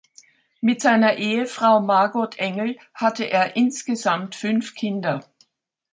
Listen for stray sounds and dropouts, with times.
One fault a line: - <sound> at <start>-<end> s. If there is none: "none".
none